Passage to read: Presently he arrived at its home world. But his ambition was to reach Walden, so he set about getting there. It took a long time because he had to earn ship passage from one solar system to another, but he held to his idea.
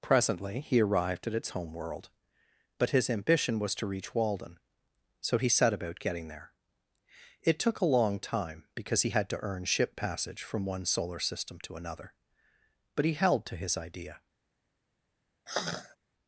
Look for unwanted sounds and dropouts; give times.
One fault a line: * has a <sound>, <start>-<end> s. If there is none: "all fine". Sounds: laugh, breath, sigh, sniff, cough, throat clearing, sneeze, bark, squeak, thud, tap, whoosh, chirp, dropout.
* has a sigh, 15.5-16.0 s